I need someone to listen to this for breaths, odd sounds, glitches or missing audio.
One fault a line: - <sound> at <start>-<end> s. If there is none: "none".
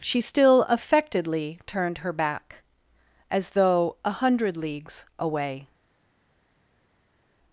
none